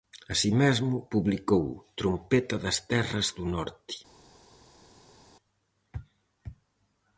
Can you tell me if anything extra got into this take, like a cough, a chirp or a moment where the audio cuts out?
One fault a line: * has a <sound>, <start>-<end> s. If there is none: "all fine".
all fine